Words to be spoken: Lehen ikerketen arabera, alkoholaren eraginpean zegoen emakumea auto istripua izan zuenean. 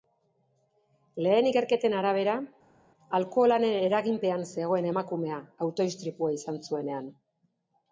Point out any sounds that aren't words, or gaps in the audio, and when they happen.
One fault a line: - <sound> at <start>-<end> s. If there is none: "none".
none